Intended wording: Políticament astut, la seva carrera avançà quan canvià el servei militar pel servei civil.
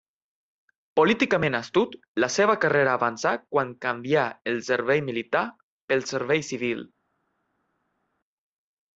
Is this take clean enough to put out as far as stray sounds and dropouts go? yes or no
yes